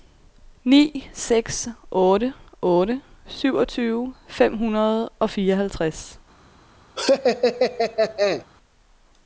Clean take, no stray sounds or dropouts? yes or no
no